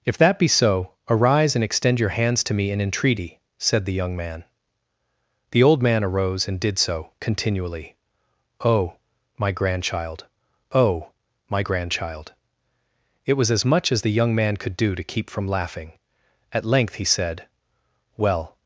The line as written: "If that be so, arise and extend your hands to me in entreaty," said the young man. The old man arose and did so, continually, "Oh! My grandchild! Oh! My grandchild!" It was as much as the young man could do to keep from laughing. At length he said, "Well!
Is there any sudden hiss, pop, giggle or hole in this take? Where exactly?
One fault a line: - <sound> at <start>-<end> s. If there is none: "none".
none